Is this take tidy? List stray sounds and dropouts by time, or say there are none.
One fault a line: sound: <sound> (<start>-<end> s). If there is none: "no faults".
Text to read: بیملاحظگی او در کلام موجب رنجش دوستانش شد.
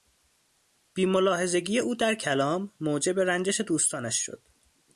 no faults